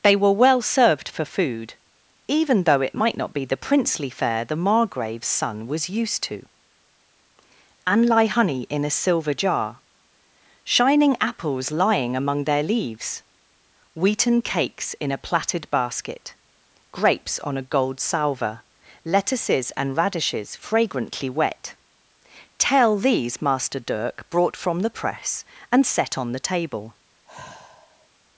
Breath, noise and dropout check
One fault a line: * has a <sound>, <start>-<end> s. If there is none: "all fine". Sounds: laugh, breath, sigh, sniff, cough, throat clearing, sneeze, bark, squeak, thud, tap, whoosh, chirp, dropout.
* has a sigh, 27.3-28.1 s